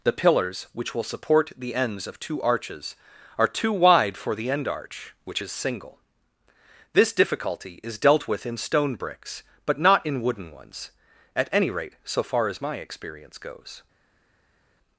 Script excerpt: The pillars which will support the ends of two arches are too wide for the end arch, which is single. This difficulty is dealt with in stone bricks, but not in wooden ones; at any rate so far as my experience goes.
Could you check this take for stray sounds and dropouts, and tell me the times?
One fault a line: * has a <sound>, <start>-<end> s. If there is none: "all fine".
all fine